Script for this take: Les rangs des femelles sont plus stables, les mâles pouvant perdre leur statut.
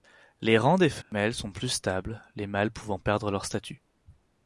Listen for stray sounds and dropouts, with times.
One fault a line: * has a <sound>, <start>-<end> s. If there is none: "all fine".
* has a dropout, 1.0-1.1 s